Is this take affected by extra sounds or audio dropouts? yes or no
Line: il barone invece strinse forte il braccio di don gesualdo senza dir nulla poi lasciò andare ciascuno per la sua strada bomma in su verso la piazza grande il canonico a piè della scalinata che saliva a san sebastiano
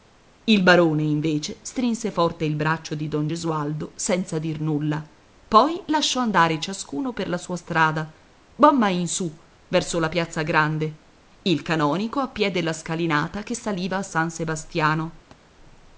yes